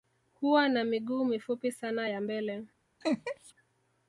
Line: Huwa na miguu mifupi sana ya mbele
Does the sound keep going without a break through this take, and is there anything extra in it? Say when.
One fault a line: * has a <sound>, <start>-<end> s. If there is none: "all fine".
* has a laugh, 3.0-3.5 s